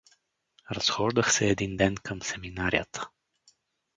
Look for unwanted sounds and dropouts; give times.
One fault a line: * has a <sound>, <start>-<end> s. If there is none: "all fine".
all fine